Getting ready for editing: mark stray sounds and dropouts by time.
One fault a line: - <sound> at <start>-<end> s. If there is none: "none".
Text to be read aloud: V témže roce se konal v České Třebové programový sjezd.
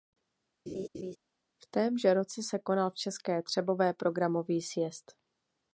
- laugh at 0.7-1.2 s